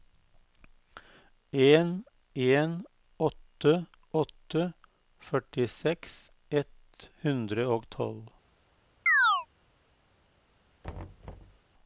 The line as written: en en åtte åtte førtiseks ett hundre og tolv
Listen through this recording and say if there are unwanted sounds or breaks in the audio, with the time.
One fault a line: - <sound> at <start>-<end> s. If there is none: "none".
- chirp at 9.1-9.5 s
- thud at 10.8-11.6 s